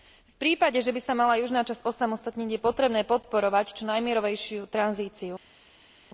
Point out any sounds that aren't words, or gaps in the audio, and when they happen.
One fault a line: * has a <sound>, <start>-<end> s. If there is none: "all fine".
all fine